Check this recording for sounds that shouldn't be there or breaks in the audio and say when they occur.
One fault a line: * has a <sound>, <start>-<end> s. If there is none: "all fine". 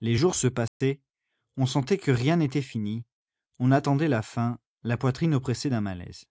* has a dropout, 0.7-0.8 s